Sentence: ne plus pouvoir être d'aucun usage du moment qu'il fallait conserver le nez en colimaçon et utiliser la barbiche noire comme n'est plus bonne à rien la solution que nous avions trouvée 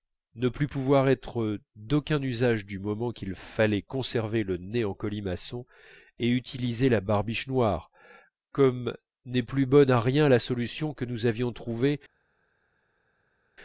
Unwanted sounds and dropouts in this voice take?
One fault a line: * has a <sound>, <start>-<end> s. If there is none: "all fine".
all fine